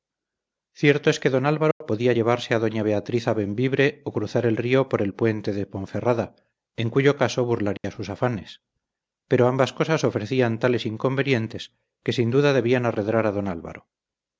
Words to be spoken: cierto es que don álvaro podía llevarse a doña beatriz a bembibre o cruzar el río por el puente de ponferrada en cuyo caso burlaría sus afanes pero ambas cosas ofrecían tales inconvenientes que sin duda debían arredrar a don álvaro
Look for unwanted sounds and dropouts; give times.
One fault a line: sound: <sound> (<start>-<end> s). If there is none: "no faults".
sound: dropout (1.7-1.8 s)
sound: dropout (7.8-7.8 s)